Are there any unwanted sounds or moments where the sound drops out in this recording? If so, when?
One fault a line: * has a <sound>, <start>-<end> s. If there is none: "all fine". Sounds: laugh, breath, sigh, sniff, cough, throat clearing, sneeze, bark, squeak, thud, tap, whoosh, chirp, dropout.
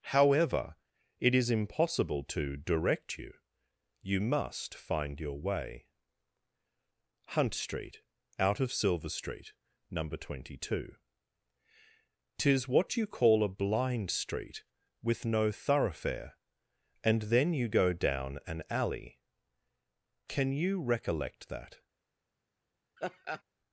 * has a laugh, 23.0-23.4 s